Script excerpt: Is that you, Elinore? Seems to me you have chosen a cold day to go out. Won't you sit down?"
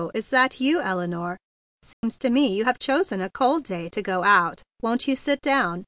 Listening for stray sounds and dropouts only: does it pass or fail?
fail